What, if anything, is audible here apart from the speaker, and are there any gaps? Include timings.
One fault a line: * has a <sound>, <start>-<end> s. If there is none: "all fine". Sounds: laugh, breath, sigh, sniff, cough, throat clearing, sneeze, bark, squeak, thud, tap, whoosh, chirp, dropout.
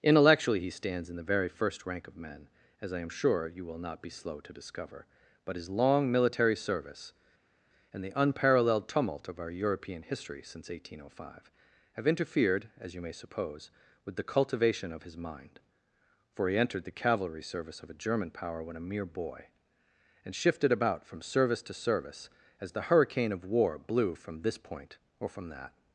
all fine